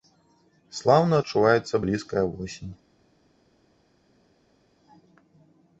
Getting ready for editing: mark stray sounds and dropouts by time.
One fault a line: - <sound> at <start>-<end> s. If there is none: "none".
none